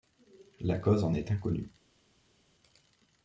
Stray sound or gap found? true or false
false